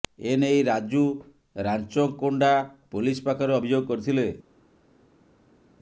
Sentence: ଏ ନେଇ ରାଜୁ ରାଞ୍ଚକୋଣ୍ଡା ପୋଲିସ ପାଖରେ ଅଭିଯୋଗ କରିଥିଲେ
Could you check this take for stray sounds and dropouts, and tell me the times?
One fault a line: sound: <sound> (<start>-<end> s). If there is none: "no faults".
no faults